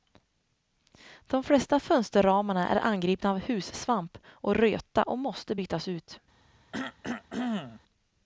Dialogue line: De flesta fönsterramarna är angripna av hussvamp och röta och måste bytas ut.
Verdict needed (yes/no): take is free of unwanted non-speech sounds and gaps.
no